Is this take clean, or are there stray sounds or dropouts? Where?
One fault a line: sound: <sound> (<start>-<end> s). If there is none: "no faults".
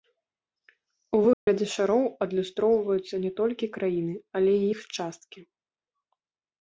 sound: dropout (1.3-1.5 s)